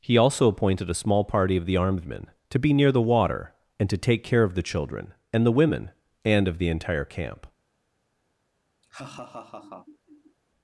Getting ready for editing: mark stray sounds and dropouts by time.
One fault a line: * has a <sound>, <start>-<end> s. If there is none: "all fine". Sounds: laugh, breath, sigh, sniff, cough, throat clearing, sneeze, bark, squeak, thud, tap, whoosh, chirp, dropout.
* has a laugh, 8.8-10.4 s